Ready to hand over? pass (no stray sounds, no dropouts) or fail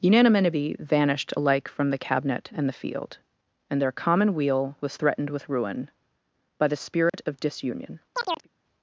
fail